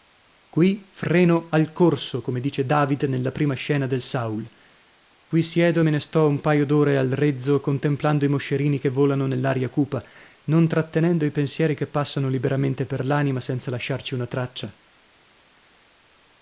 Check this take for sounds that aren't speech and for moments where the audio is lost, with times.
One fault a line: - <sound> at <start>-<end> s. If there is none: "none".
none